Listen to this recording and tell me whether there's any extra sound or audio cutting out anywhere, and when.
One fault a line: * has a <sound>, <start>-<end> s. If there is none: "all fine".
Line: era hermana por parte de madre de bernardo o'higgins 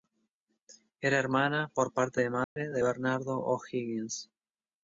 * has a dropout, 2.4-2.6 s